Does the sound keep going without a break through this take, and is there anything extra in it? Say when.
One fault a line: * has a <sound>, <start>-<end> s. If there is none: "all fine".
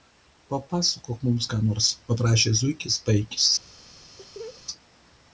* has a laugh, 4.2-4.6 s